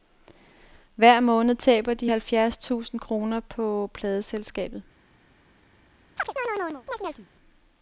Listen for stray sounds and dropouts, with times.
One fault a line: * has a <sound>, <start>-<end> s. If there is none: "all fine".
* has a chirp, 6.2-7.3 s